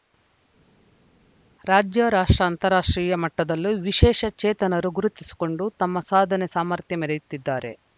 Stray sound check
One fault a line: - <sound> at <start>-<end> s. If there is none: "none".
none